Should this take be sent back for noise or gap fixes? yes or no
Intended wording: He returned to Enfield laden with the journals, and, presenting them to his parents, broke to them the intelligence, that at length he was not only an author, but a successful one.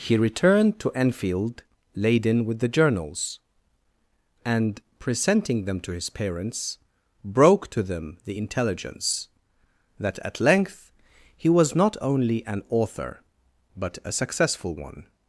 no